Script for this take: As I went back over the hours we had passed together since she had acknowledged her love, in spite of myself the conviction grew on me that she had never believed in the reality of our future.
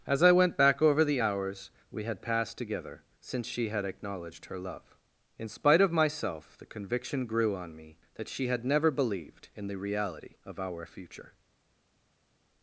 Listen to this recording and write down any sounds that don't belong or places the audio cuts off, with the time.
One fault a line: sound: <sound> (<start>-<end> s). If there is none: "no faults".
no faults